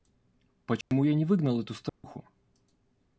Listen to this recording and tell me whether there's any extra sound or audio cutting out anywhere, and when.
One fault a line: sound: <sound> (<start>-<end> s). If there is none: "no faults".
sound: dropout (0.8-0.9 s)
sound: dropout (1.9-2.0 s)